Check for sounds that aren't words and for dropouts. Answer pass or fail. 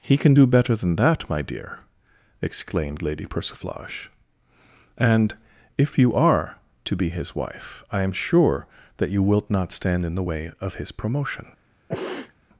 fail